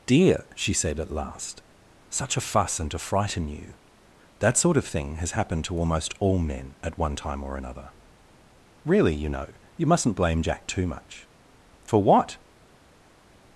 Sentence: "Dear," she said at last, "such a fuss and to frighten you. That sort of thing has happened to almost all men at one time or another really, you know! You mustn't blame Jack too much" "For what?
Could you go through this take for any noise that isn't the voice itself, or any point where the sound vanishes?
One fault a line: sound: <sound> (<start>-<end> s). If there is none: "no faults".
no faults